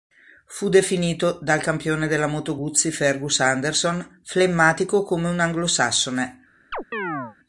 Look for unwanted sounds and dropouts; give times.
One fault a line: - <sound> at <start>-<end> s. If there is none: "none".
- chirp at 6.7-7.4 s